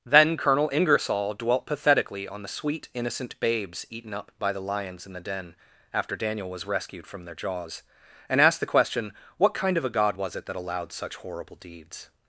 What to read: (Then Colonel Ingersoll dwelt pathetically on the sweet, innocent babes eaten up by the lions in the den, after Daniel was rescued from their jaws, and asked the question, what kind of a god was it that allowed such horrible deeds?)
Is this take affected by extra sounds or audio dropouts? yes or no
no